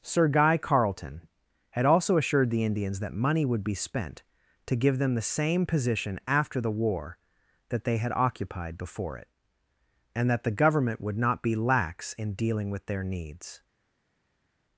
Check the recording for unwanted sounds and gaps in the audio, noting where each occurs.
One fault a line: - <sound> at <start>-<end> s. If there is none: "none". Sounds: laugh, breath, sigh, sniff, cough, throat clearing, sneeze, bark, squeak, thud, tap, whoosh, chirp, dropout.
none